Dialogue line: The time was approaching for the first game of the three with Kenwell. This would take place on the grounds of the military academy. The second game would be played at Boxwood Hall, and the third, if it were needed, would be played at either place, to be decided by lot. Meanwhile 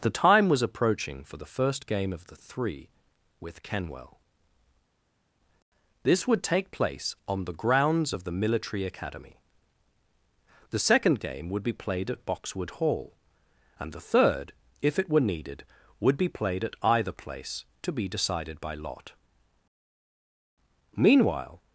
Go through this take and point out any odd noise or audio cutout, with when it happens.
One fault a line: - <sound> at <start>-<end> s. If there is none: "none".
none